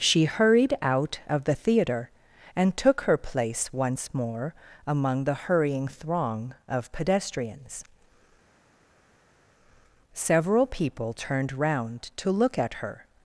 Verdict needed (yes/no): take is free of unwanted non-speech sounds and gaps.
yes